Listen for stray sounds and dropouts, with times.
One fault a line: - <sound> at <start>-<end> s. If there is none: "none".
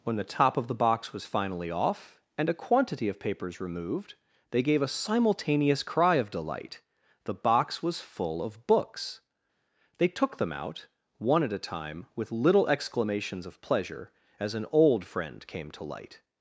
none